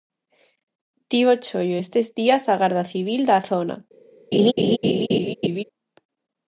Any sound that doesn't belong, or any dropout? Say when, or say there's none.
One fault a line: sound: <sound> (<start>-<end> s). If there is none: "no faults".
sound: laugh (4.3-5.6 s)